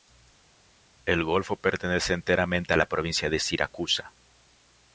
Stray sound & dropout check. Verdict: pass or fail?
pass